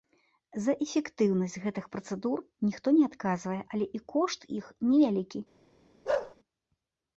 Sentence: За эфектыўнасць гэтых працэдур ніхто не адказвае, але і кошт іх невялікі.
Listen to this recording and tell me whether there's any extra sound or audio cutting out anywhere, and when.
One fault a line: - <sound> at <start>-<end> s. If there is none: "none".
- bark at 6.1-6.4 s